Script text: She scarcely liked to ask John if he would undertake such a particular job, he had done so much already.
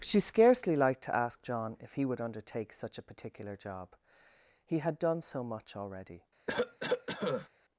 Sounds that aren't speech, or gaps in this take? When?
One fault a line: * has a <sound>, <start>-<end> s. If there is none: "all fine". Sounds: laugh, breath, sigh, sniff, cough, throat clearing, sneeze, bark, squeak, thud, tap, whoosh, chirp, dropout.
* has a cough, 6.5-7.5 s